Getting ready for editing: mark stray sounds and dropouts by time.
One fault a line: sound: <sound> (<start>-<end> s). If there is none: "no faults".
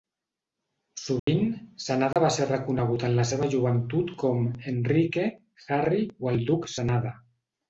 sound: dropout (1.2-1.3 s)
sound: dropout (2.1-2.2 s)